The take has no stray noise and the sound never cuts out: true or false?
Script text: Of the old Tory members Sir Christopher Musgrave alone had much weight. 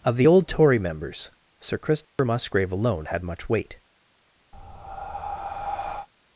false